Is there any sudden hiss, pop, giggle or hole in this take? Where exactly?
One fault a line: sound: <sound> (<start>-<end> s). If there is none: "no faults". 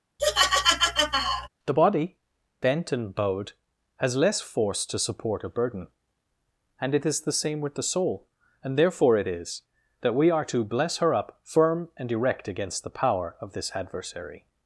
sound: laugh (0.2-1.5 s)